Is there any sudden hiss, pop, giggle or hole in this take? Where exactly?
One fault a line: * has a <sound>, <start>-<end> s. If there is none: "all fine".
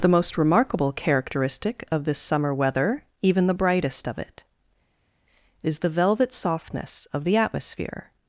all fine